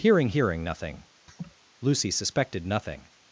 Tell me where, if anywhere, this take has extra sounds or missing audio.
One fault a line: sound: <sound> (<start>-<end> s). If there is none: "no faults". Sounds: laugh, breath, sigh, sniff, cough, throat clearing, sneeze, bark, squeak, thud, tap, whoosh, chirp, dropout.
sound: laugh (1.3-1.6 s)